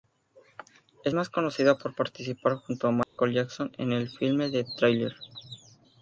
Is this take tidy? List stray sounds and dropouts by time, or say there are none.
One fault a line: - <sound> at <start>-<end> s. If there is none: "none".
- dropout at 3.0-3.2 s